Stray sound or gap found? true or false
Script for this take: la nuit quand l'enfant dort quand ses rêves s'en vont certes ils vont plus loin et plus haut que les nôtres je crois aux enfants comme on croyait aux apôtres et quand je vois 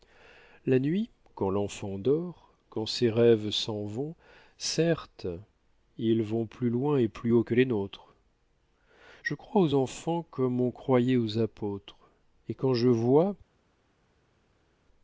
false